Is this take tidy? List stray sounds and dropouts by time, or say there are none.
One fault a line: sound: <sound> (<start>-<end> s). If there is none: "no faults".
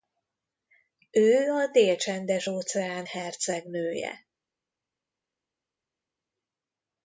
no faults